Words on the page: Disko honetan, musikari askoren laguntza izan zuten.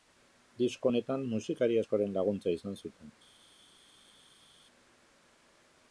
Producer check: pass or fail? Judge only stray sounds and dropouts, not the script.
pass